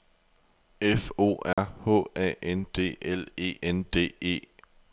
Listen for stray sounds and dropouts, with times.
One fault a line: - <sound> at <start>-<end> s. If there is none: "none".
- dropout at 1.5-1.6 s